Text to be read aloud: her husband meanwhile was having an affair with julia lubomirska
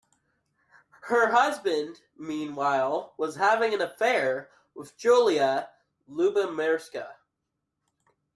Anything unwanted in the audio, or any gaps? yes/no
no